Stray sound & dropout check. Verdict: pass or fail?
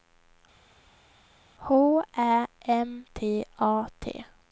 pass